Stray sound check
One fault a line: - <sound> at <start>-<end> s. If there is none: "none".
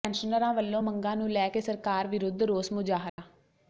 - dropout at 3.1-3.2 s